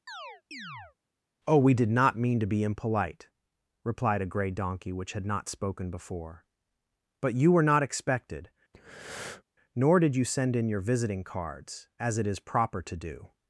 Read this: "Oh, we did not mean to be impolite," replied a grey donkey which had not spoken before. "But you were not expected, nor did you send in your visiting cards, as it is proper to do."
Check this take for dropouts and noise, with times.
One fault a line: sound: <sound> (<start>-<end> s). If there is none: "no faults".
sound: chirp (0.1-1.0 s)
sound: breath (8.7-9.4 s)